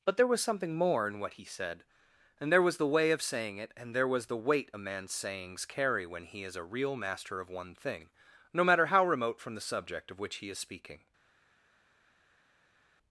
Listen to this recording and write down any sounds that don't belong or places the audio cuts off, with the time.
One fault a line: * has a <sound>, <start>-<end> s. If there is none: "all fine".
all fine